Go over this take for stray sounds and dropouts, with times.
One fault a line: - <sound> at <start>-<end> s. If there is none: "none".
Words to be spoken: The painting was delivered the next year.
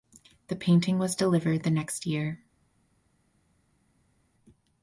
none